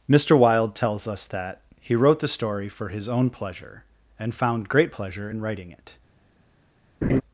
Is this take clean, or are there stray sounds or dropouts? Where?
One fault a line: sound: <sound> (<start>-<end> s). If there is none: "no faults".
sound: laugh (7.0-7.2 s)